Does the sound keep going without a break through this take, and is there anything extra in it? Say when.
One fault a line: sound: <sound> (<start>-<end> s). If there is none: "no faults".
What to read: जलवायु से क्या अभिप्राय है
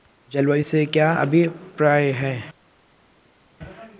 no faults